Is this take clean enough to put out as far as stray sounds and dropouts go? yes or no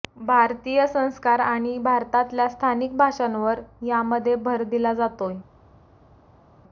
yes